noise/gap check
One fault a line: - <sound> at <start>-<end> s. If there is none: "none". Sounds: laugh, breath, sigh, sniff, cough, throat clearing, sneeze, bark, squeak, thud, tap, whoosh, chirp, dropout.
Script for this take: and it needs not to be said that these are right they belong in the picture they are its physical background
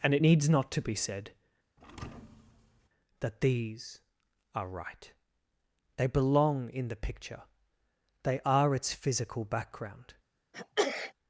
- thud at 1.8-2.9 s
- sneeze at 10.5-11.1 s